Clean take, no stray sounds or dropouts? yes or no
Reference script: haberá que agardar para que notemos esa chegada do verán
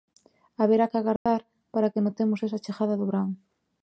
no